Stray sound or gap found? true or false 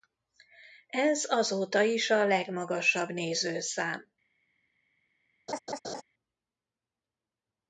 true